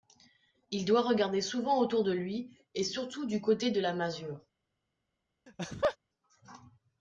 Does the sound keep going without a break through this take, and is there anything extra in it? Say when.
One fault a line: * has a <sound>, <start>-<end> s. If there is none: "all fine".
* has a laugh, 5.5-6.0 s